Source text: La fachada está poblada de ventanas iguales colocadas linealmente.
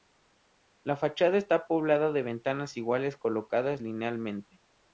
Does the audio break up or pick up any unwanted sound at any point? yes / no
no